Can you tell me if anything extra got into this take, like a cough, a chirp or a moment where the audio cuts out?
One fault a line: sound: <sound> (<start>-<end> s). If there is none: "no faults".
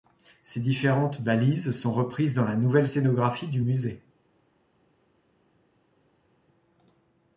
no faults